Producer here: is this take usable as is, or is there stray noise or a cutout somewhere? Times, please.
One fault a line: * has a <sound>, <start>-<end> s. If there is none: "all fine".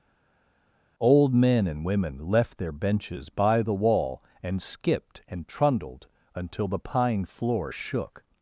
all fine